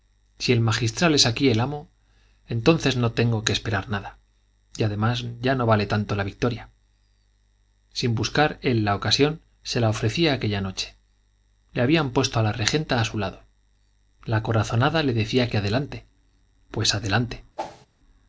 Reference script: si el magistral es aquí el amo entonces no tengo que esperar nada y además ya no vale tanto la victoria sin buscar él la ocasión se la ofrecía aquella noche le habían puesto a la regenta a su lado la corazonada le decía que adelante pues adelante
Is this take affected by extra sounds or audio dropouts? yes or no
yes